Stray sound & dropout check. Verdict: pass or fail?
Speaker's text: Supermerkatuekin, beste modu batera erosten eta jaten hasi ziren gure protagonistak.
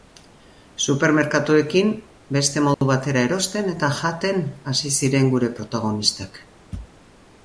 fail